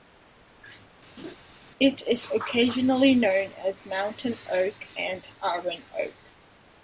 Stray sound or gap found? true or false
true